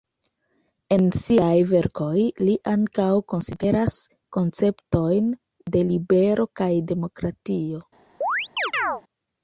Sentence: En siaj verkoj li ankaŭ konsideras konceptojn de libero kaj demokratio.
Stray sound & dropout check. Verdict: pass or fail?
fail